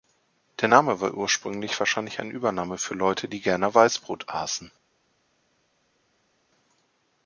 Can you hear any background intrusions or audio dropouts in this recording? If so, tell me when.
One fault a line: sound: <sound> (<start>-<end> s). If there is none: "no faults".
no faults